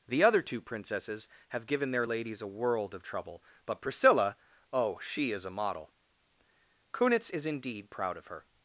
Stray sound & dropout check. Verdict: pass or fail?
pass